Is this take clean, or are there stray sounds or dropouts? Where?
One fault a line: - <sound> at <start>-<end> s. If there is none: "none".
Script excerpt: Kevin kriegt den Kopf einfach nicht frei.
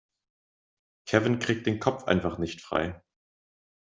none